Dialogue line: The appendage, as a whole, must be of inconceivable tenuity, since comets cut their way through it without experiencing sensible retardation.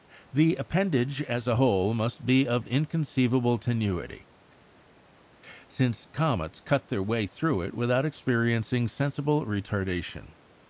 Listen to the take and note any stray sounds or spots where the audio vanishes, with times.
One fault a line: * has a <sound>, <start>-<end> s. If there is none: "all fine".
all fine